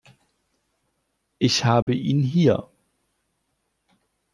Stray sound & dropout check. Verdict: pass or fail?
fail